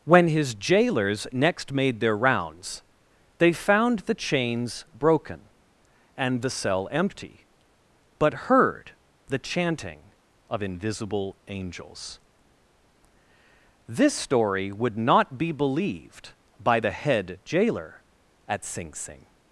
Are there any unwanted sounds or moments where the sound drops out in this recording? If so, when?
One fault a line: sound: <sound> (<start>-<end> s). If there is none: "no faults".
no faults